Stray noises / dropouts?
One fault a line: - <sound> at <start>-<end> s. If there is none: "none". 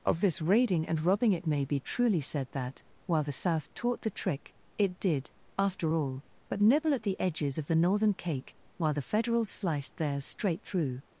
none